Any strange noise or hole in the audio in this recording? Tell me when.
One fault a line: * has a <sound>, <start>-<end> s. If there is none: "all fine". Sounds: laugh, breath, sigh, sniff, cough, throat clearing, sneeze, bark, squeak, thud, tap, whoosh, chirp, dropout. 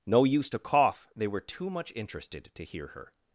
all fine